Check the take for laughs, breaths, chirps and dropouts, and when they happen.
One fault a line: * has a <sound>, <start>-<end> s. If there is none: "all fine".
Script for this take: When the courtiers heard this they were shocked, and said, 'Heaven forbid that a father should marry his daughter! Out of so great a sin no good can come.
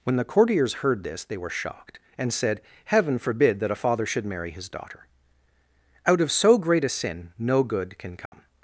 * has a dropout, 8.3-8.3 s